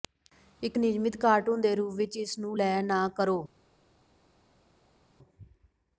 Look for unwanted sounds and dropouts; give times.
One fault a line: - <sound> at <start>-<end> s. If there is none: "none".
none